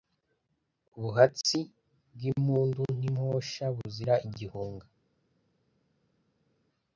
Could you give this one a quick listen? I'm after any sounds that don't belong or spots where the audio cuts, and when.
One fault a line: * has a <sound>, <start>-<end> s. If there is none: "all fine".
all fine